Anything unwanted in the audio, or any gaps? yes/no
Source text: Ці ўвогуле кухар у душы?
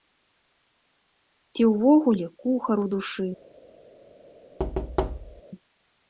yes